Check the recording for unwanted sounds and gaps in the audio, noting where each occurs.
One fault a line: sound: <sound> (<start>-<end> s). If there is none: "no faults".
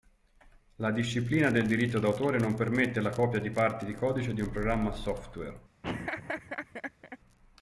sound: laugh (5.8-7.2 s)